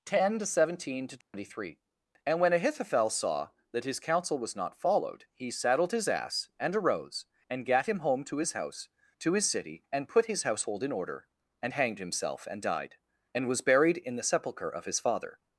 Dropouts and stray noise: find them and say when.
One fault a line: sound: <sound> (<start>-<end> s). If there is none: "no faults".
sound: dropout (1.2-1.3 s)